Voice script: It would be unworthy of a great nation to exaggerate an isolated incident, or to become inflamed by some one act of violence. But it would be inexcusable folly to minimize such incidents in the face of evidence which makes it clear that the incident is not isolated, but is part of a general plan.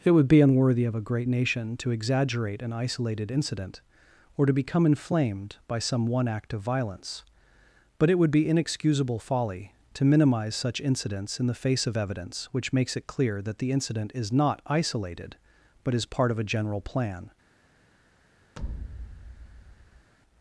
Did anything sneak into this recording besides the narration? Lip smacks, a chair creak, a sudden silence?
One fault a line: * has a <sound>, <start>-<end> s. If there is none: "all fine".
* has a thud, 18.6-20.1 s